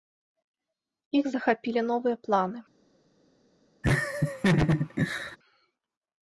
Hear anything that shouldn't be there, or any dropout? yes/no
yes